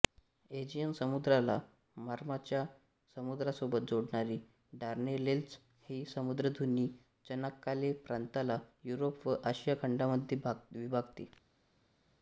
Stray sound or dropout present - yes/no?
no